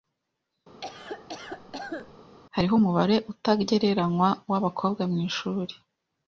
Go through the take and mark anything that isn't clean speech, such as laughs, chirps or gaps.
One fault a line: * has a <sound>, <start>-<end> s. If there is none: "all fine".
* has a cough, 0.8-2.2 s